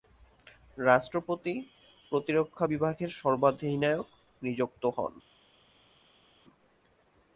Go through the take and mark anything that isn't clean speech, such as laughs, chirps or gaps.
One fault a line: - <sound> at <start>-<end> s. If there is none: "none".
none